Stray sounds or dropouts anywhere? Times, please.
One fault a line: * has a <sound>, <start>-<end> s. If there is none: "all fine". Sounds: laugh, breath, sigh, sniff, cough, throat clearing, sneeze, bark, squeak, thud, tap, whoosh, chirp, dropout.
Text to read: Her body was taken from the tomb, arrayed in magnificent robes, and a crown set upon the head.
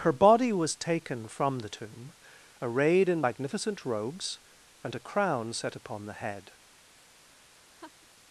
* has a laugh, 7.7-8.1 s